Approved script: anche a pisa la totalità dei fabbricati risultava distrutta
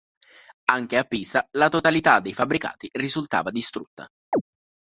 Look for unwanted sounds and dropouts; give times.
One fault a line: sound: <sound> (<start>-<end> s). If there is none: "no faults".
sound: chirp (4.3-4.4 s)